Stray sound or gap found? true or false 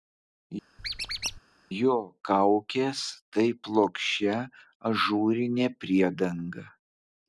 true